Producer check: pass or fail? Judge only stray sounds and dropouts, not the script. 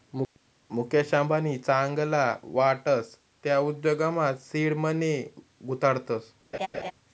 fail